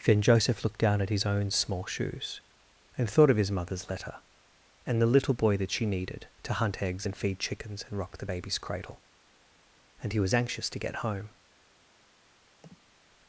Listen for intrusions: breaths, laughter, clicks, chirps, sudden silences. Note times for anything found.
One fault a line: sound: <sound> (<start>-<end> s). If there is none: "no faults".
sound: sniff (12.6-12.9 s)